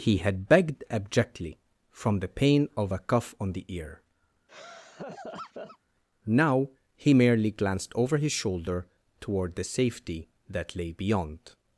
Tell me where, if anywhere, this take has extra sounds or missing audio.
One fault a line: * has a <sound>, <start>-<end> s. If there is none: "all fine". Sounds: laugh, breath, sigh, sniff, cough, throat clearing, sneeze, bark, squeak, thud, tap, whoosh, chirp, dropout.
* has a laugh, 4.5-5.8 s